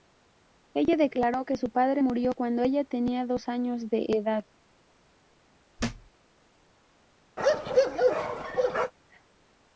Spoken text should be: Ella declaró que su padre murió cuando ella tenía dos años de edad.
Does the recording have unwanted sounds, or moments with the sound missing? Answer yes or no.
yes